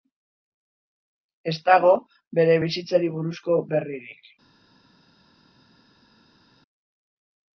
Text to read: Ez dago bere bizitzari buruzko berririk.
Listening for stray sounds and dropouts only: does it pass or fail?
pass